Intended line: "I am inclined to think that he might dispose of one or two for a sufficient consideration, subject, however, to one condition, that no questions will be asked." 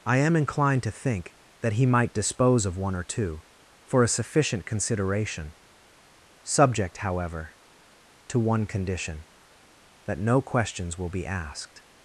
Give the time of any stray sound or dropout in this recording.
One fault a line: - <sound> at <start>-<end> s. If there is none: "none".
none